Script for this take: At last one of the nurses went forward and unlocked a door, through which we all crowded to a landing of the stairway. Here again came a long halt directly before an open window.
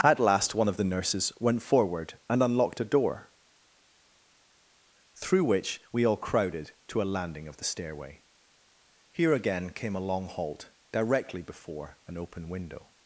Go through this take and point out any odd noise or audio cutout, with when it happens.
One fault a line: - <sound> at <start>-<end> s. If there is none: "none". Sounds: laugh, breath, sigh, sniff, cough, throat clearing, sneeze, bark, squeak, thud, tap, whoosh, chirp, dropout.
none